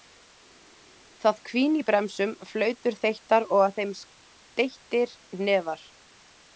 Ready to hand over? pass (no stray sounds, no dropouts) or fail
pass